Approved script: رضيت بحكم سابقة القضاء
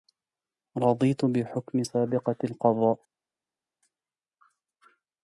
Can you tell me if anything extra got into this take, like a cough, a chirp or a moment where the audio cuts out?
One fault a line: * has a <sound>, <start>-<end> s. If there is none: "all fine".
all fine